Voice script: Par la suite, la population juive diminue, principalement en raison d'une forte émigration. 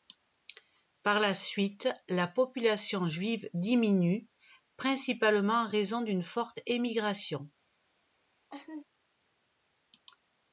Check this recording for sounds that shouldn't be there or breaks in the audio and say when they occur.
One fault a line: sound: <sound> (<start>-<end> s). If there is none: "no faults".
sound: laugh (8.5-8.8 s)